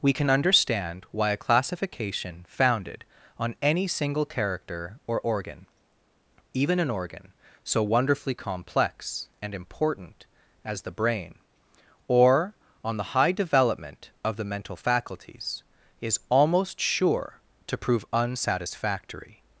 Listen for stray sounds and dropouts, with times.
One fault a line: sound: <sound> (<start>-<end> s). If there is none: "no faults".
no faults